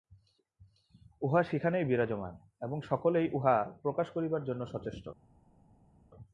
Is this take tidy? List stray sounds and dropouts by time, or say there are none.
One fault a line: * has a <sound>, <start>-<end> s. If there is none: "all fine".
all fine